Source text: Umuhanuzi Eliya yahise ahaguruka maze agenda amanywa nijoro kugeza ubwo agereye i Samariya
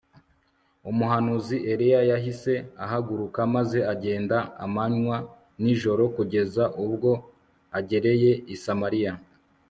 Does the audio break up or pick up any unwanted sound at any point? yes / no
no